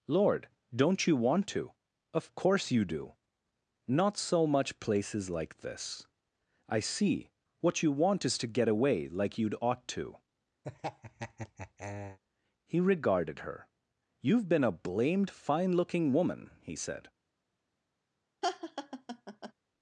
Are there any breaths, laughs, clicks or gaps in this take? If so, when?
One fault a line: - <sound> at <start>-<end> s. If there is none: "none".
- laugh at 10.6-12.2 s
- laugh at 18.4-19.5 s